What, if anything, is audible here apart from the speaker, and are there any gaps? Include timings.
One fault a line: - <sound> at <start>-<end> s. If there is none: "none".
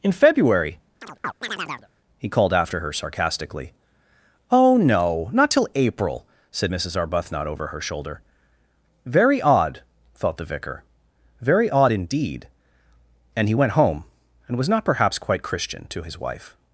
- chirp at 1.0-1.9 s